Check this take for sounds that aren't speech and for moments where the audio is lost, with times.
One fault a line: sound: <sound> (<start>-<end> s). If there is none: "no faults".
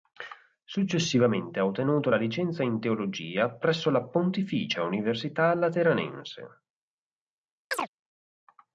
sound: chirp (7.7-7.9 s)